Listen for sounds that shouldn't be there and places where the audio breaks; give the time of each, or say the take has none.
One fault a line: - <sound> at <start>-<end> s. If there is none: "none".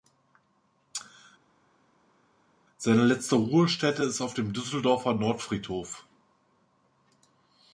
none